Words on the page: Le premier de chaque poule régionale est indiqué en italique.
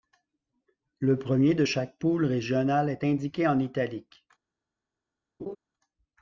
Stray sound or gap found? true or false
true